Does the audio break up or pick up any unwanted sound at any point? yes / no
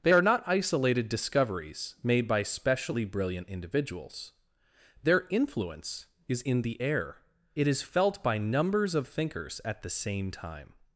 no